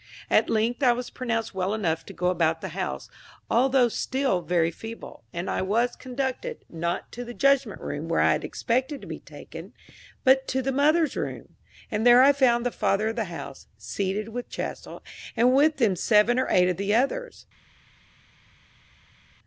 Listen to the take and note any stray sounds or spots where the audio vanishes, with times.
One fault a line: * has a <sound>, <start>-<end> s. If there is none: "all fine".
all fine